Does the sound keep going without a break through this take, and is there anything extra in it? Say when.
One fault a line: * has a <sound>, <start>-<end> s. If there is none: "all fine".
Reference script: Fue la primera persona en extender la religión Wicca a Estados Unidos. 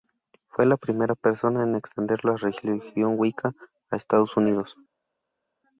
all fine